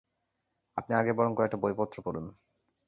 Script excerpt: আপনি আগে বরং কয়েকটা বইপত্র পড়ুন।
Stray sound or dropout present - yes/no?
no